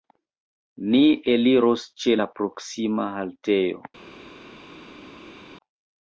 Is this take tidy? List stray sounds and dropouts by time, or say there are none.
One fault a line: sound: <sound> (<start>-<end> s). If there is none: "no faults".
no faults